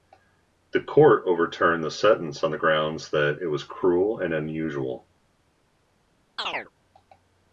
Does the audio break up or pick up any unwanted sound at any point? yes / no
yes